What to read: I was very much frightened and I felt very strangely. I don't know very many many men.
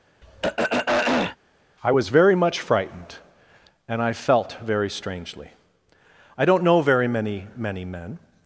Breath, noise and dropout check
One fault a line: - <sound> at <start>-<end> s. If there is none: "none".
- throat clearing at 0.2-1.4 s